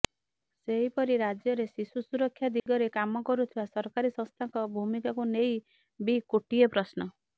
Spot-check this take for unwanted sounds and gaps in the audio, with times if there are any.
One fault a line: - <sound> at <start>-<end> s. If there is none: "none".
- dropout at 2.6-2.7 s